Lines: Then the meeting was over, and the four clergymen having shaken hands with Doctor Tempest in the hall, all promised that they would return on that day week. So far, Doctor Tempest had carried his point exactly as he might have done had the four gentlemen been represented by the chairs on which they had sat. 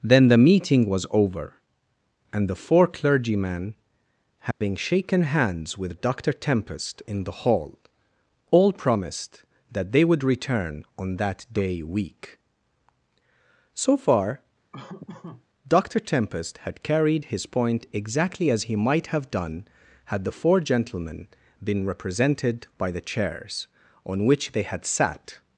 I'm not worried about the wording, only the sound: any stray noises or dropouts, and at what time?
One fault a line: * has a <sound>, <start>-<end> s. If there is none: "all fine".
* has a dropout, 4.5-4.6 s
* has a laugh, 14.7-15.5 s